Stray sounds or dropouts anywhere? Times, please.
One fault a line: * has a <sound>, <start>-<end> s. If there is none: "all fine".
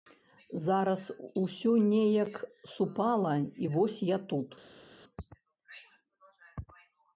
all fine